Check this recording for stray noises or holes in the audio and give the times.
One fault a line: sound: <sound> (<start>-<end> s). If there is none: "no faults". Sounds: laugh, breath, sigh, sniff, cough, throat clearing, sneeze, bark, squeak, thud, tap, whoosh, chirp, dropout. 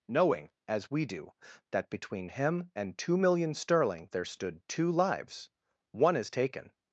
no faults